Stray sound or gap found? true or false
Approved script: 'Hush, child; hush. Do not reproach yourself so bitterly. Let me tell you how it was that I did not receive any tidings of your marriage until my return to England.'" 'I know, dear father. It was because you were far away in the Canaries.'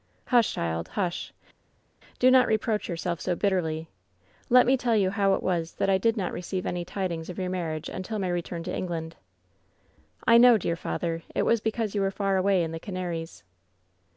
false